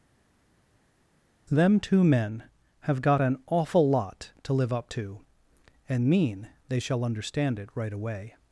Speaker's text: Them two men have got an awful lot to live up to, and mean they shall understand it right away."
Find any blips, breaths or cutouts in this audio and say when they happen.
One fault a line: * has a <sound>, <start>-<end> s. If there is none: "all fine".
all fine